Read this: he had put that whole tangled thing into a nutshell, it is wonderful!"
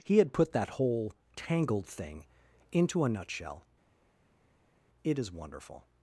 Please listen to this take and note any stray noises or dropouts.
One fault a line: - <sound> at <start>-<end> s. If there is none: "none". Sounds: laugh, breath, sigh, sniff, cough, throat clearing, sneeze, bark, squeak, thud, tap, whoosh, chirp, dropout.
none